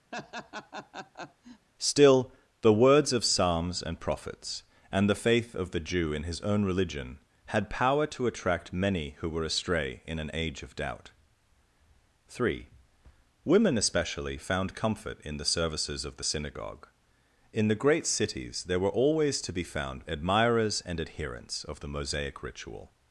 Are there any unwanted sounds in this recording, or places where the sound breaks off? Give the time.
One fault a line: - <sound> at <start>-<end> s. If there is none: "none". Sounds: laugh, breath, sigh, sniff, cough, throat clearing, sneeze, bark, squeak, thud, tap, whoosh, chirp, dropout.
- laugh at 0.1-1.7 s